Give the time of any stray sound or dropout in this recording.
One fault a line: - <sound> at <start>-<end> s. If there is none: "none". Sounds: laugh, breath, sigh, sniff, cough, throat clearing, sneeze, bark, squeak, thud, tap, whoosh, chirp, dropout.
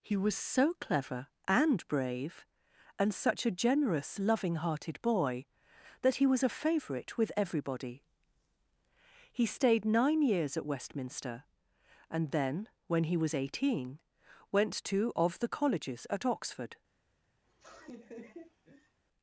- laugh at 17.4-19.0 s